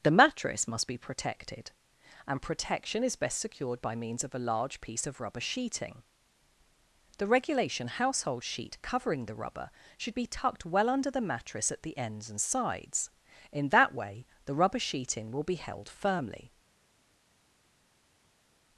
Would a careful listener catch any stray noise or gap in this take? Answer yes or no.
no